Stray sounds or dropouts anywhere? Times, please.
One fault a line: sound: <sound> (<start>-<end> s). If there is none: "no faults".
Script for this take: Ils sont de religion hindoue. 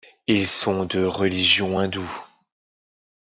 no faults